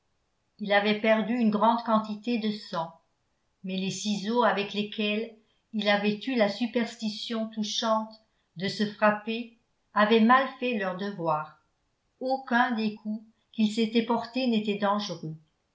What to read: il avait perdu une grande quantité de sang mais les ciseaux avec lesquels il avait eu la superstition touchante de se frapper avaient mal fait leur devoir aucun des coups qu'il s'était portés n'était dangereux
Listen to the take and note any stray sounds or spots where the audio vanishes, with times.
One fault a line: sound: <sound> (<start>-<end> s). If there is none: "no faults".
no faults